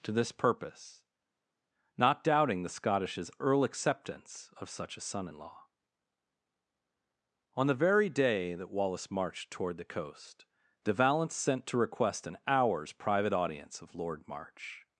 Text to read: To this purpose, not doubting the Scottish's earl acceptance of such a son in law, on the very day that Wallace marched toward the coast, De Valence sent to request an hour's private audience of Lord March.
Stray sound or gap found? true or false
false